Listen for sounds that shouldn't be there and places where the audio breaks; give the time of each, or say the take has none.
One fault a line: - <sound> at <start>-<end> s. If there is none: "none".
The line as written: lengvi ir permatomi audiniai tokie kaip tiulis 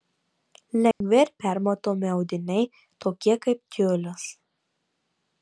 - dropout at 0.9-1.0 s